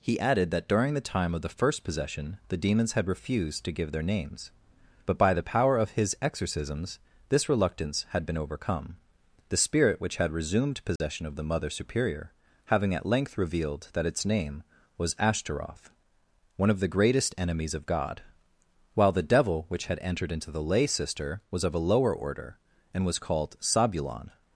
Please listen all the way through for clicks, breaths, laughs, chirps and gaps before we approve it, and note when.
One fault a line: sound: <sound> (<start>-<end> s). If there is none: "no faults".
sound: dropout (11.0-11.0 s)